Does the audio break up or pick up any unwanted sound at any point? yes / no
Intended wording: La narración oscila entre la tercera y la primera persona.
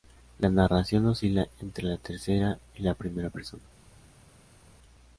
no